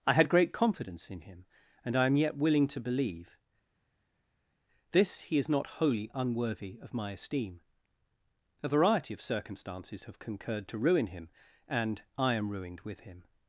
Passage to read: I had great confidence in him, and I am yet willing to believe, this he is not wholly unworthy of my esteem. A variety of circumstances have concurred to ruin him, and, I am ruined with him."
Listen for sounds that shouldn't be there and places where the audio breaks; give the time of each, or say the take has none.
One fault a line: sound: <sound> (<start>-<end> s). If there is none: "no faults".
no faults